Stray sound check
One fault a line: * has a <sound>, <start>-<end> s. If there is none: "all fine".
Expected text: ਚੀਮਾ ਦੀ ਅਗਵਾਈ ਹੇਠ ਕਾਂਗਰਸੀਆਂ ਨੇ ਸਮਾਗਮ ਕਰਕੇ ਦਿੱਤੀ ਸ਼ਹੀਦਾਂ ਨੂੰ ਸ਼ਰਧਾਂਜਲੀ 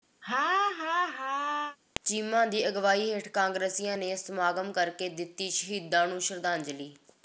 * has a laugh, 0.2-1.8 s